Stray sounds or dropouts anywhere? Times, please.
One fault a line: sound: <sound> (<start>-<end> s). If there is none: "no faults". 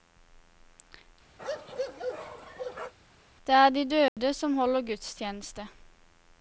sound: bark (1.4-2.9 s)
sound: dropout (4.1-4.2 s)